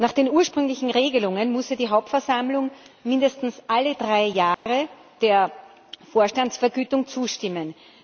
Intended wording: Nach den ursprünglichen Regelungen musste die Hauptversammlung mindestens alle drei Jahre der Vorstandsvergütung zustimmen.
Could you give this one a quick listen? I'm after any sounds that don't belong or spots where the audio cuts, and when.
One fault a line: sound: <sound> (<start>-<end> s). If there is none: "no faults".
sound: dropout (4.5-4.7 s)